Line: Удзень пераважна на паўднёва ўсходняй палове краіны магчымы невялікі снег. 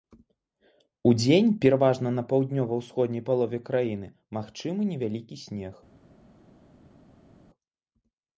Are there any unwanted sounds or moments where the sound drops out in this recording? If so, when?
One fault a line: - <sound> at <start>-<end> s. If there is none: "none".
none